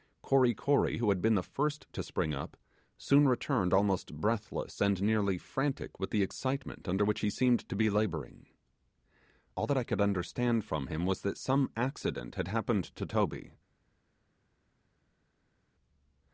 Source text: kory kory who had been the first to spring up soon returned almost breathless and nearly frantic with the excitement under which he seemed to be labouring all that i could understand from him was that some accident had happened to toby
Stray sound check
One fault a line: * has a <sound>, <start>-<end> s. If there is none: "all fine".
all fine